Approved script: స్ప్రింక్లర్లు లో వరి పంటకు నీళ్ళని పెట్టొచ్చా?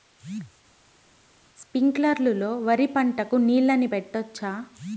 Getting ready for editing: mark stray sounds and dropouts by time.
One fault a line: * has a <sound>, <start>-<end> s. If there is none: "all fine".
all fine